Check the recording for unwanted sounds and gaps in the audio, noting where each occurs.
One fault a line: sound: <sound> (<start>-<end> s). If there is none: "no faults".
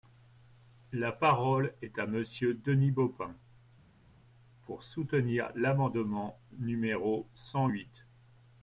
no faults